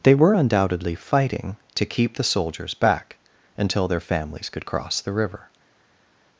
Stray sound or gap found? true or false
false